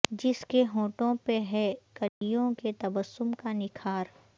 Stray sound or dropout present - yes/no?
yes